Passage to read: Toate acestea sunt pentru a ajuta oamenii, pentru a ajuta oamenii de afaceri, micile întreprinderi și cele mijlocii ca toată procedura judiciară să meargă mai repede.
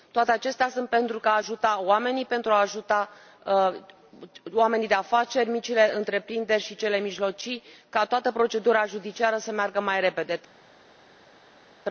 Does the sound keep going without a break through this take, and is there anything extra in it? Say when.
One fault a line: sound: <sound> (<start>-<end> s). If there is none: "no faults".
no faults